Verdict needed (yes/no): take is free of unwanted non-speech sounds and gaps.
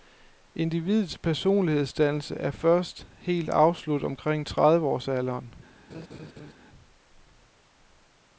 no